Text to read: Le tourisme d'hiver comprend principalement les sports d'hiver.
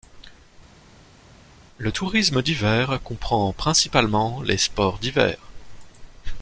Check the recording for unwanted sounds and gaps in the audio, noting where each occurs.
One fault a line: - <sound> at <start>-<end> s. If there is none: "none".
none